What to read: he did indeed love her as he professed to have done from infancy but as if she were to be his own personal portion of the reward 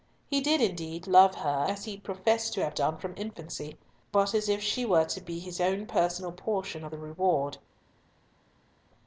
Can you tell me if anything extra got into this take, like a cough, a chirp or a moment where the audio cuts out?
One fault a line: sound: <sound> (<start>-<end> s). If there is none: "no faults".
no faults